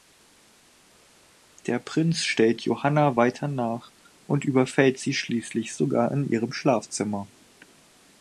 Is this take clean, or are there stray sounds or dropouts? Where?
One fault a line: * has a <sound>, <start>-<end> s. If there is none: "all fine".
all fine